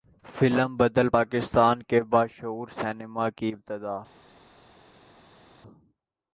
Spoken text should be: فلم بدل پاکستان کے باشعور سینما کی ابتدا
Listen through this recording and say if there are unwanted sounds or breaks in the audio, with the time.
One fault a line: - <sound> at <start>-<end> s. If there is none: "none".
none